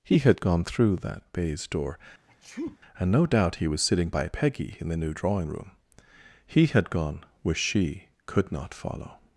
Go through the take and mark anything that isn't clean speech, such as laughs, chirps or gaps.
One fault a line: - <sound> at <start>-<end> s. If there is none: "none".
- sneeze at 2.3-2.8 s